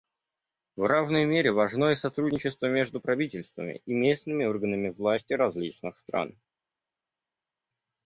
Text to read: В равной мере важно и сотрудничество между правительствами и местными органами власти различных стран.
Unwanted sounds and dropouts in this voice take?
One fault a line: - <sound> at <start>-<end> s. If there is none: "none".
none